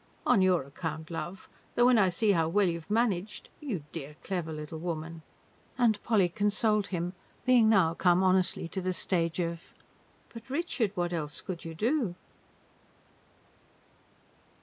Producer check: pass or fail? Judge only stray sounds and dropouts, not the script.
pass